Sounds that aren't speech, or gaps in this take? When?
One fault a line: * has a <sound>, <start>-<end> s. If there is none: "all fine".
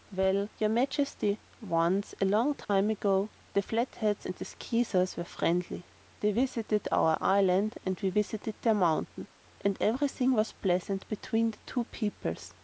* has a dropout, 2.6-2.7 s